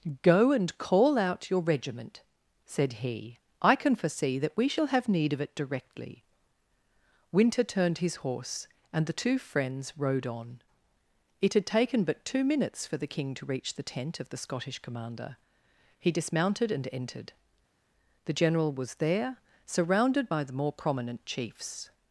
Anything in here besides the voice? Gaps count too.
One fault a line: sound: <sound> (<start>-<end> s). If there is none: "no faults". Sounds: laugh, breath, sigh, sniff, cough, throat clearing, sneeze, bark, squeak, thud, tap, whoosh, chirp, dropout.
no faults